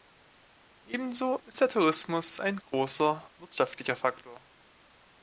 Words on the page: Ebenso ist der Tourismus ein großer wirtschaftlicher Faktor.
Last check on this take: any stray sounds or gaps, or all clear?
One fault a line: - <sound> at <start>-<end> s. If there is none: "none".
none